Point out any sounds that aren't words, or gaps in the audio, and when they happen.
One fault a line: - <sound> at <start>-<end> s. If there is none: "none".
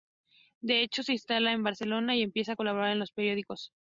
none